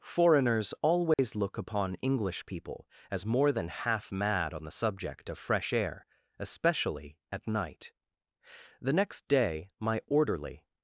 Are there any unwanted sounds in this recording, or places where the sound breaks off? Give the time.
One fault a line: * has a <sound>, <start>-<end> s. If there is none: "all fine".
* has a dropout, 1.1-1.2 s